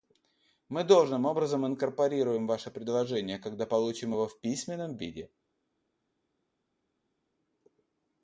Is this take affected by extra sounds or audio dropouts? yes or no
no